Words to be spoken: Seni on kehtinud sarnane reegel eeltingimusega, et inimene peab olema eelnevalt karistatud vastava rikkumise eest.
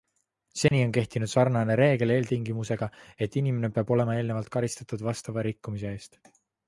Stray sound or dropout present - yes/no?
yes